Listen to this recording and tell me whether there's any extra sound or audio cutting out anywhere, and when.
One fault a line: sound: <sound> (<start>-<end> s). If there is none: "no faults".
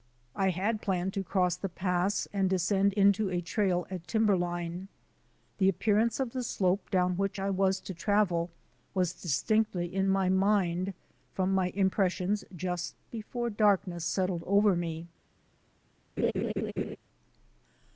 sound: laugh (16.2-17.0 s)